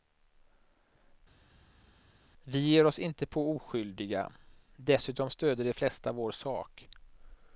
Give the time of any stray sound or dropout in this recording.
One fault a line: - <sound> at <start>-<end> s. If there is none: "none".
none